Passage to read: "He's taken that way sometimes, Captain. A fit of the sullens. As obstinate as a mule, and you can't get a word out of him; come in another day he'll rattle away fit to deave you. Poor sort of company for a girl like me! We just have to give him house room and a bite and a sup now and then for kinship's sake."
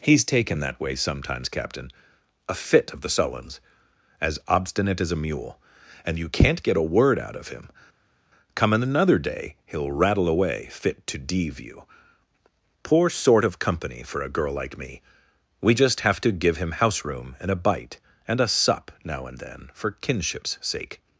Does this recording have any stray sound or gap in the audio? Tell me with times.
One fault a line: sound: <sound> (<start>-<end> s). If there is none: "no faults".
no faults